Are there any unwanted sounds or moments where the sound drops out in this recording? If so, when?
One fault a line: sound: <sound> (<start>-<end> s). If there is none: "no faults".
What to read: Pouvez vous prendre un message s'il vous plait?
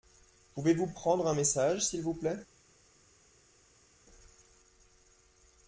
no faults